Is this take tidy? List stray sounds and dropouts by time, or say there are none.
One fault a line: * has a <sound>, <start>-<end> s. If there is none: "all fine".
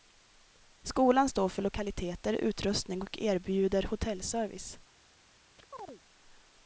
* has a chirp, 5.6-6.0 s